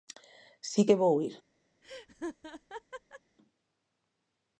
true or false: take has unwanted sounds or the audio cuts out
true